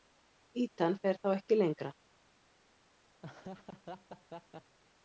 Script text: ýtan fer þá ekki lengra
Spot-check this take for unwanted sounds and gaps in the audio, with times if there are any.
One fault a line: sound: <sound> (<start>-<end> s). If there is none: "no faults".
sound: laugh (3.2-4.8 s)